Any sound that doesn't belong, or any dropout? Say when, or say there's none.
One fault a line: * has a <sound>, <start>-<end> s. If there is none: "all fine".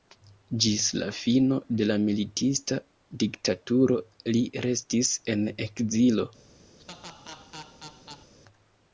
* has a laugh, 6.8-8.3 s